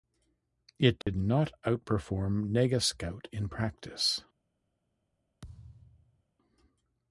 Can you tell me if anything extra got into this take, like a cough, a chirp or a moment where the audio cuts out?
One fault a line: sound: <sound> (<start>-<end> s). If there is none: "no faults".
sound: dropout (1.0-1.1 s)
sound: thud (5.4-6.2 s)